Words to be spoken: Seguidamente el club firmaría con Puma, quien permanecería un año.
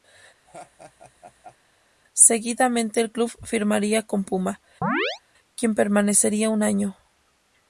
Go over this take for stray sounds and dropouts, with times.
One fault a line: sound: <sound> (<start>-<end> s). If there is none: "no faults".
sound: laugh (0.5-1.6 s)
sound: chirp (4.8-5.2 s)